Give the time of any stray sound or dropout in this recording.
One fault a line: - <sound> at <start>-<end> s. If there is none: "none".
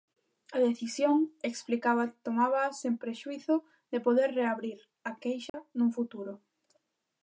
- dropout at 5.5-5.5 s